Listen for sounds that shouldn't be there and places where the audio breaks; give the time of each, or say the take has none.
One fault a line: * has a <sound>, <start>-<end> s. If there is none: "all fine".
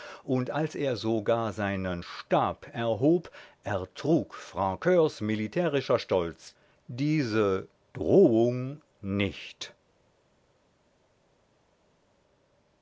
all fine